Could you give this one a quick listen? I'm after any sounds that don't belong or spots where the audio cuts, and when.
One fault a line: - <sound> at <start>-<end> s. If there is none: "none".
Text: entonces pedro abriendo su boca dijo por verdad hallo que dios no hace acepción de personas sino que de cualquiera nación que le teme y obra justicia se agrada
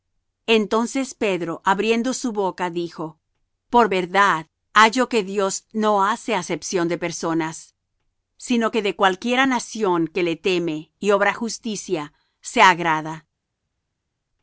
none